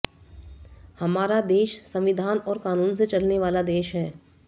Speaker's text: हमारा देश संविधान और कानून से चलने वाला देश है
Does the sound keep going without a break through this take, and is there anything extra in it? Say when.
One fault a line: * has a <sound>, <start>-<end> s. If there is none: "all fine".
all fine